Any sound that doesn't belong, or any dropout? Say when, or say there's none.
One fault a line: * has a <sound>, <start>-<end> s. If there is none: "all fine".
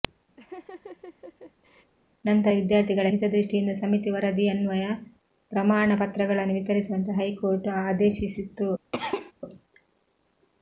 * has a laugh, 0.4-1.9 s
* has a cough, 8.9-9.3 s